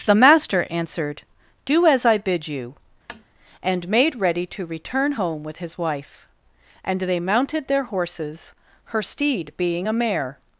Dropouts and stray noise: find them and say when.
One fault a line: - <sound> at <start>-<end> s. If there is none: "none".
- tap at 3.1-3.2 s